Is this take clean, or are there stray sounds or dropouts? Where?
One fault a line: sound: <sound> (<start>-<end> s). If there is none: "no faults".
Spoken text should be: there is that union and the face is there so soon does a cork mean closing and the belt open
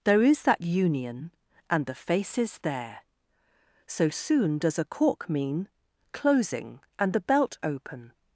no faults